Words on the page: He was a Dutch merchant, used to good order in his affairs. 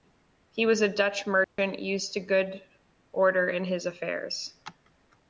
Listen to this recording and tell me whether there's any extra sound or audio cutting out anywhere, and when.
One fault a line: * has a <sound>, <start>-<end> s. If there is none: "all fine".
* has a dropout, 1.4-1.6 s